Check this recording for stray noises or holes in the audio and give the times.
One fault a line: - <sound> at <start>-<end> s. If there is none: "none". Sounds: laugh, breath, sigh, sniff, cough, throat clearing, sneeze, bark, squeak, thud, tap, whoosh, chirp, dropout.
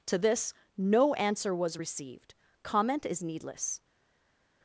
none